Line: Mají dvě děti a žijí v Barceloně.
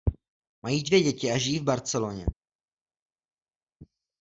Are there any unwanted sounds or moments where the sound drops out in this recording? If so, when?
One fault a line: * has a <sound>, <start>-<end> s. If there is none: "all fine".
all fine